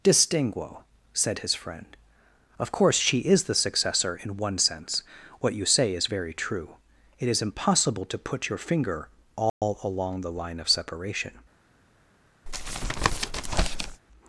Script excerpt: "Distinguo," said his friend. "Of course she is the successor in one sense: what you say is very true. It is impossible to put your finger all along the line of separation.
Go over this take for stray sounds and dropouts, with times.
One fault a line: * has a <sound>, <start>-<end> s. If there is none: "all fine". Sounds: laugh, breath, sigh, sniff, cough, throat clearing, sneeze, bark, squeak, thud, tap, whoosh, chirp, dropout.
* has a dropout, 9.5-9.6 s
* has a tap, 12.5-14.0 s